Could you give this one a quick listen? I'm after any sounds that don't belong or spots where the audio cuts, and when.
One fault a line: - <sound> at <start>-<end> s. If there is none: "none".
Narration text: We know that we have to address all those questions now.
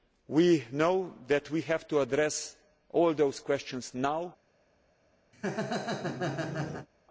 - laugh at 5.3-6.9 s